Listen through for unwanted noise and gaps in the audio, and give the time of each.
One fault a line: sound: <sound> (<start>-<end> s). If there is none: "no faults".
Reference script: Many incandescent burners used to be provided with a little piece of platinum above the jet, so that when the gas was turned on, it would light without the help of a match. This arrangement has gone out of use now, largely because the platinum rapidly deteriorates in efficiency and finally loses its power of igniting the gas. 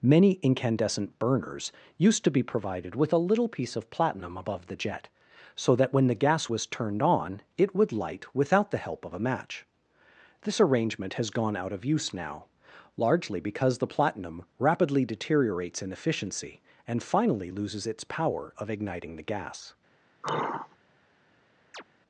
sound: sigh (20.2-20.8 s)
sound: chirp (21.7-21.8 s)